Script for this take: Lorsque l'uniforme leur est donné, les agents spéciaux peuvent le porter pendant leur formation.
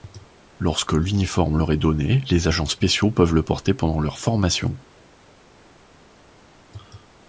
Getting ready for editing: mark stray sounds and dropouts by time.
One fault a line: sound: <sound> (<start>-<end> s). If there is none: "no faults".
no faults